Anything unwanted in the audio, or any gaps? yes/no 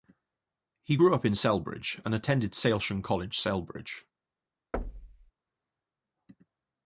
yes